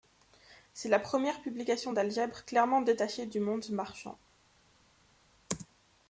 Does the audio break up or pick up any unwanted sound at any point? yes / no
no